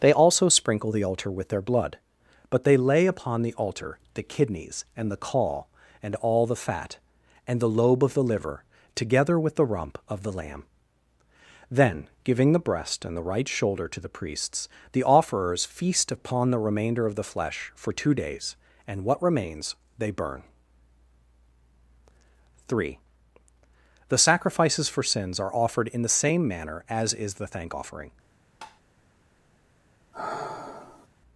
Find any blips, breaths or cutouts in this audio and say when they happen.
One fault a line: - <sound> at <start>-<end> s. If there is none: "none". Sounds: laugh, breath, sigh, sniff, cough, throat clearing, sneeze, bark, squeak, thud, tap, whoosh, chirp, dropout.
- tap at 28.6-28.8 s
- sigh at 30.1-31.1 s